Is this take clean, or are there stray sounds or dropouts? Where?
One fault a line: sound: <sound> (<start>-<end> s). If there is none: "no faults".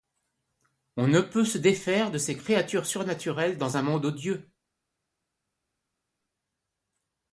no faults